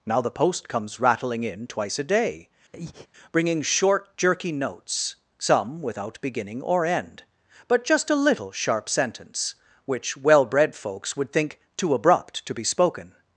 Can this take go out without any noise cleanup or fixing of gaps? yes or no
no